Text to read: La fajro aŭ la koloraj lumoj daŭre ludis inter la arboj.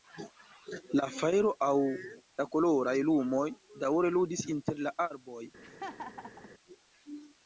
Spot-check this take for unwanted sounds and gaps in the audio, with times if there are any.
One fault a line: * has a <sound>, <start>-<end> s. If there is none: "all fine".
* has a laugh, 5.6-6.5 s